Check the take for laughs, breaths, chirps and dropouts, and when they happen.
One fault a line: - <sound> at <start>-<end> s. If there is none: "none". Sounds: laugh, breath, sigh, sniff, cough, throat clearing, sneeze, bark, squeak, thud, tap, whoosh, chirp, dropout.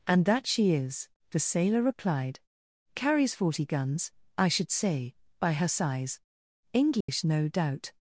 - dropout at 7.0-7.1 s